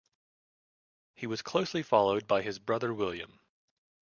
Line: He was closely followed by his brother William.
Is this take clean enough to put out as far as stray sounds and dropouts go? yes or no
yes